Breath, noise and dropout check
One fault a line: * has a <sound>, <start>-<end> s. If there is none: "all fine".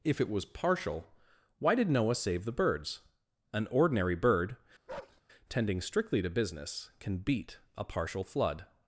* has a bark, 4.9-5.2 s